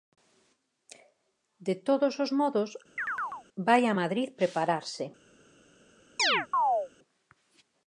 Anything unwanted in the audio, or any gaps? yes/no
yes